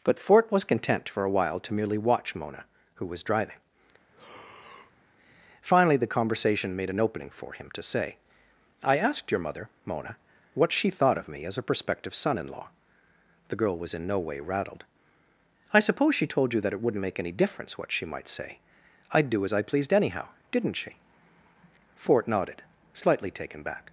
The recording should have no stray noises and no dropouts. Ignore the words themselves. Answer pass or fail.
fail